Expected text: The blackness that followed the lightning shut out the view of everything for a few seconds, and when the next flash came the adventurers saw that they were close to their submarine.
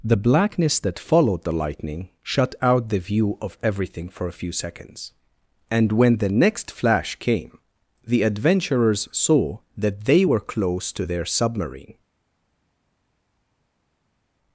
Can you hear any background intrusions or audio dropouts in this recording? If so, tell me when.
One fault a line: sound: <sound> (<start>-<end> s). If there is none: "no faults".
no faults